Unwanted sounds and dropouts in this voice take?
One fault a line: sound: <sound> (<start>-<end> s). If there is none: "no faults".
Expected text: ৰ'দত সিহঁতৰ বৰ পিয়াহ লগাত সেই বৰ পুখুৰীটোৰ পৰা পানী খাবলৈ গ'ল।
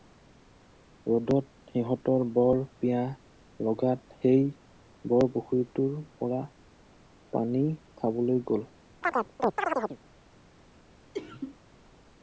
sound: chirp (9.0-10.0 s)
sound: sneeze (11.1-11.6 s)